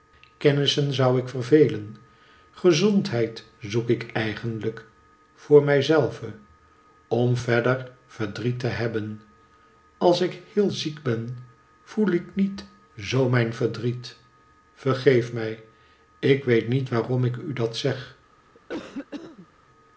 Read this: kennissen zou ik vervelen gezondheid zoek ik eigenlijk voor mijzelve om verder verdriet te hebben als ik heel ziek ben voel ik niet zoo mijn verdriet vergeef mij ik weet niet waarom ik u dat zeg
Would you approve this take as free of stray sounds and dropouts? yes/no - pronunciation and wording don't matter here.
no